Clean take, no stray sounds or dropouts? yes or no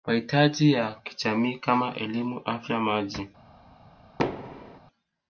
no